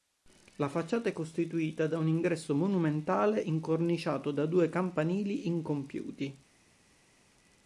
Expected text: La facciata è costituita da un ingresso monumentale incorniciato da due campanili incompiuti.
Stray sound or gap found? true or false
false